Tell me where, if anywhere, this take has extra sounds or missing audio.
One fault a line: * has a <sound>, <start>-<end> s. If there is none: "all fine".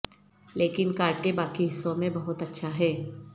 all fine